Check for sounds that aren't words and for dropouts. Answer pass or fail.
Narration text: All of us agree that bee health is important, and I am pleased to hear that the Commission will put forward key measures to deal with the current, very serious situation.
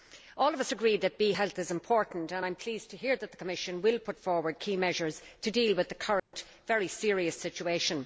fail